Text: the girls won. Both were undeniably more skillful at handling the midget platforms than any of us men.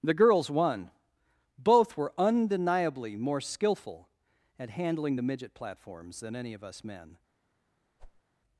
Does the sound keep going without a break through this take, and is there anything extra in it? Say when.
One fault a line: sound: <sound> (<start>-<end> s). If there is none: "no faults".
sound: whoosh (8.0-8.2 s)